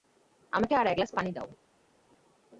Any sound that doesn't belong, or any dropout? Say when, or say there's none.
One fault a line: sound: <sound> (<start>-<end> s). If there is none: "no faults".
no faults